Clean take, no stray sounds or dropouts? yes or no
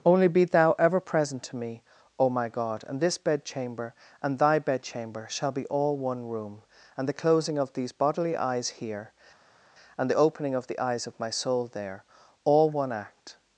yes